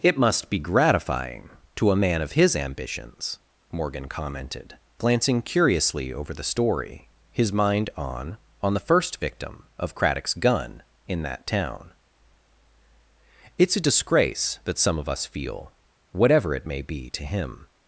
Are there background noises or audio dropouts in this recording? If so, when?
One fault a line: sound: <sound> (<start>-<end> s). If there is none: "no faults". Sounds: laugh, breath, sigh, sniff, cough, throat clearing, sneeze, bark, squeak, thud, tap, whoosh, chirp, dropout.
no faults